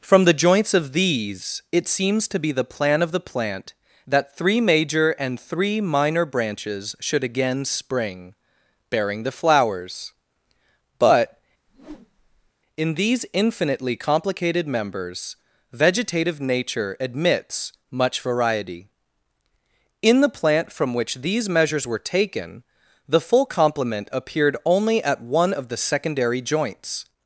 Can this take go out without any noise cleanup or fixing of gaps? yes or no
no